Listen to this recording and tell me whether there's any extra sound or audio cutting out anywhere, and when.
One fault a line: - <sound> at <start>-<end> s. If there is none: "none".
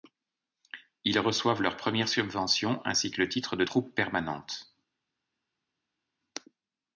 none